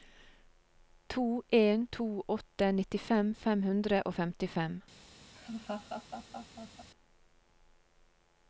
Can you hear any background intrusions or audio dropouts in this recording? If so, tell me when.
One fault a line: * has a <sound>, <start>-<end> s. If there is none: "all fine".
* has a laugh, 5.3-6.9 s